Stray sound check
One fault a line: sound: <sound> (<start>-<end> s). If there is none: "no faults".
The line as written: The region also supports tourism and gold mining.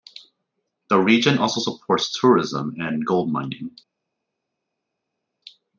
no faults